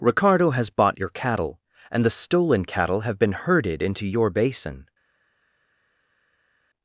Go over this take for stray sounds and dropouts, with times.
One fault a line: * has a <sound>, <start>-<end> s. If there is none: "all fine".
all fine